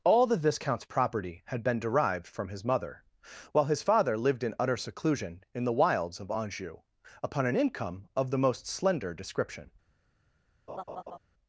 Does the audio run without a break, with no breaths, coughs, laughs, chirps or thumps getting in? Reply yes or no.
no